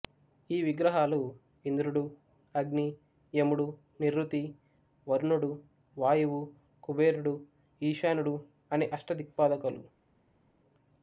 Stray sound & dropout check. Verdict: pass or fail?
pass